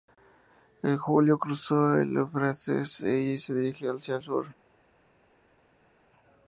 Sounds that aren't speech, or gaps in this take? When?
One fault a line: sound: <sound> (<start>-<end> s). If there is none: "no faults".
no faults